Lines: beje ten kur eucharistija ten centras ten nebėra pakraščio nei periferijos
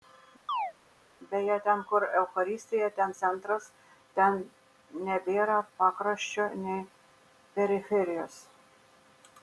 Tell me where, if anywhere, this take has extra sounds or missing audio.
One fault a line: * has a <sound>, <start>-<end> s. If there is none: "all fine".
* has a chirp, 0.5-0.7 s